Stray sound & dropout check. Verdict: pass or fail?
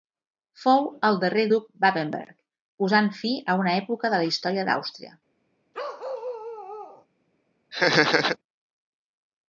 fail